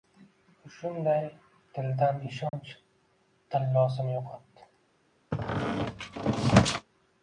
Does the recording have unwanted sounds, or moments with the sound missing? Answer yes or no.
yes